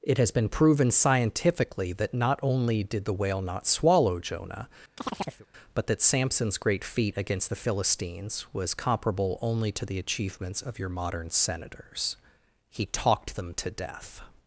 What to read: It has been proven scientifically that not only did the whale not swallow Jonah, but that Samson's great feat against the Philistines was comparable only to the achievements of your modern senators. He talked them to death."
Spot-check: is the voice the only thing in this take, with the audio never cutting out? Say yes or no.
no